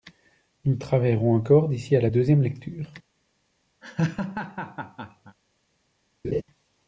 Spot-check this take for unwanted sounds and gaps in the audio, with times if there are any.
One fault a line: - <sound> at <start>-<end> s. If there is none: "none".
- laugh at 3.8-5.4 s
- laugh at 6.2-6.4 s